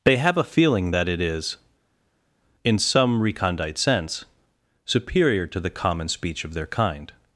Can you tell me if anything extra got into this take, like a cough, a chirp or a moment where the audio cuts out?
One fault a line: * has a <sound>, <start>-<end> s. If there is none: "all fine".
all fine